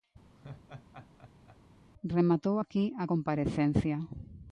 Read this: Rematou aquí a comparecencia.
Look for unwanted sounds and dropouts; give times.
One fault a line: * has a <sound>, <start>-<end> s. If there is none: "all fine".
* has a laugh, 0.4-1.6 s